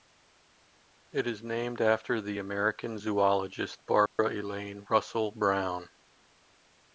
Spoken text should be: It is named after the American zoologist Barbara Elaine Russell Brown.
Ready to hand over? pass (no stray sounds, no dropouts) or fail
fail